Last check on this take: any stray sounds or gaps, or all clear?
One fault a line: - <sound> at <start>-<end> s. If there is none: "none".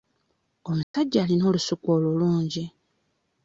- dropout at 0.8-0.9 s